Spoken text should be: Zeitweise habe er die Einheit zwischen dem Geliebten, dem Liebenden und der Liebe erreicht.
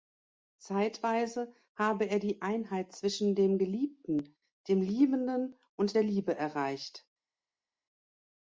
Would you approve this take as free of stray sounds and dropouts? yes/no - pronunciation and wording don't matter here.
yes